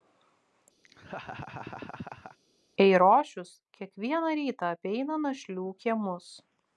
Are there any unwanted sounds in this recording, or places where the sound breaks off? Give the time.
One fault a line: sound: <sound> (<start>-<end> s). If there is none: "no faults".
sound: laugh (0.8-2.4 s)